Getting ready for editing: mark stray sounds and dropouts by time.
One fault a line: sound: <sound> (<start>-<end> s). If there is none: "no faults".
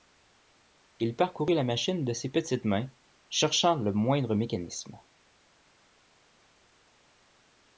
no faults